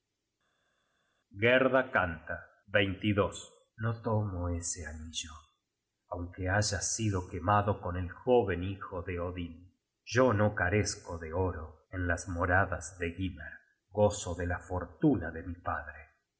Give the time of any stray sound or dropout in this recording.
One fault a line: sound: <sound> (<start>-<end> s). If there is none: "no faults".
no faults